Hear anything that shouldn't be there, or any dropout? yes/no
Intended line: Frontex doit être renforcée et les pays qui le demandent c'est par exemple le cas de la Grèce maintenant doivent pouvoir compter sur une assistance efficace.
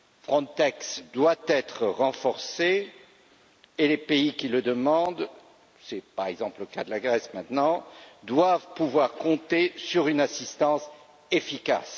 no